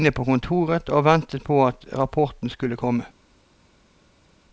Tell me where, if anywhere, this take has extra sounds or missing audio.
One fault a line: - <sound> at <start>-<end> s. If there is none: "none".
none